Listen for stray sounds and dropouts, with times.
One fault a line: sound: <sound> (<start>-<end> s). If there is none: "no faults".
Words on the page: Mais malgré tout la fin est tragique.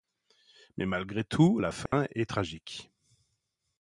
sound: dropout (1.9-1.9 s)